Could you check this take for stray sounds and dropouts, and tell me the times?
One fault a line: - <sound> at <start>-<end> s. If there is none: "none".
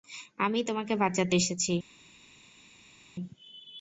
none